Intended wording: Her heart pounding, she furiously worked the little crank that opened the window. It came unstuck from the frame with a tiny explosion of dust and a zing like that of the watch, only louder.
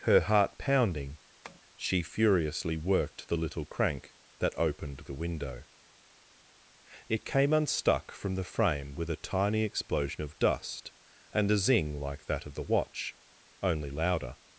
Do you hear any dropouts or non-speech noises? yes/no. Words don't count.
yes